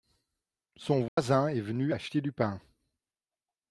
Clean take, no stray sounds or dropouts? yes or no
no